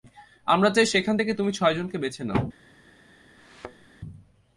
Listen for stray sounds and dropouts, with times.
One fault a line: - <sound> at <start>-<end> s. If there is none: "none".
- thud at 3.4-3.9 s